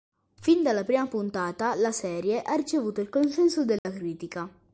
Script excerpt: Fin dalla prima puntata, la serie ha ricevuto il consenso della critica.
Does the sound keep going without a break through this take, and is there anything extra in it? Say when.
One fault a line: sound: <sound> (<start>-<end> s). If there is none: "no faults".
sound: dropout (3.8-3.8 s)